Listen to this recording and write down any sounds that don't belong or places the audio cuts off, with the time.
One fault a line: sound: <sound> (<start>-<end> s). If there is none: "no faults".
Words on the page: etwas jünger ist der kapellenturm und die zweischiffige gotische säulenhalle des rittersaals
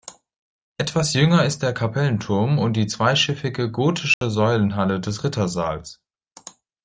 sound: dropout (4.1-4.2 s)